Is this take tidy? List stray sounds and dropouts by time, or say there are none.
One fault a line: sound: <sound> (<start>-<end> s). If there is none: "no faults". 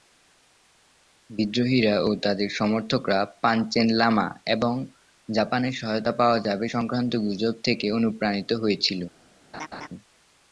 sound: laugh (9.5-9.9 s)